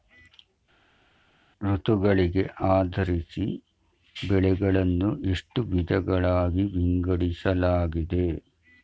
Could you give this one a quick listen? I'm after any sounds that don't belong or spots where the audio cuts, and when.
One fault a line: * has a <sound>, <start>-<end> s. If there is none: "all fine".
all fine